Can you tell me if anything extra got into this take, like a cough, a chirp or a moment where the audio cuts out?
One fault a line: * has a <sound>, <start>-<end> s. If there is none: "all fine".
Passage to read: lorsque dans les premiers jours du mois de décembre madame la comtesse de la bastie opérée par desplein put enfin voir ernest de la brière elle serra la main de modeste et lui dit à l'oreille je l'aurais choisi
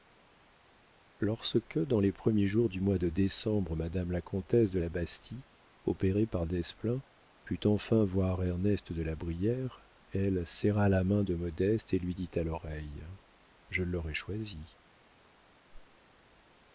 * has a whoosh, 15.7-16.0 s